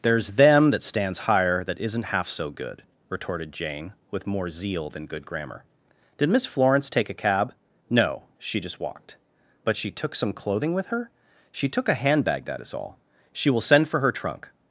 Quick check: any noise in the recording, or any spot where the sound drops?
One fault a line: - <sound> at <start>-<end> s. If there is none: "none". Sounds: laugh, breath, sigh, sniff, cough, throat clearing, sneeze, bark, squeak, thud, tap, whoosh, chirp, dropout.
none